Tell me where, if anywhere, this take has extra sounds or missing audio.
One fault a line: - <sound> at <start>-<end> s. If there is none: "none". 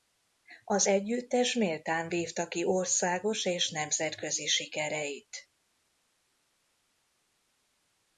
none